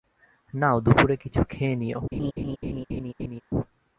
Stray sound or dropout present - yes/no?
yes